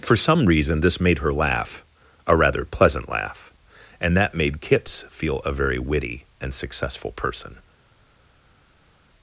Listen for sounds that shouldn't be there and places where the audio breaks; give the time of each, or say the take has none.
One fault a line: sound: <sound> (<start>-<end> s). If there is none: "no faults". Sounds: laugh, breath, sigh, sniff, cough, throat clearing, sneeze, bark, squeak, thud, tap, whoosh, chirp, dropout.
no faults